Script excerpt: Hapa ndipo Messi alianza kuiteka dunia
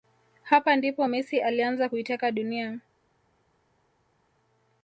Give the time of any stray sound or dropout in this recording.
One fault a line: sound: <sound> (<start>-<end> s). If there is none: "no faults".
no faults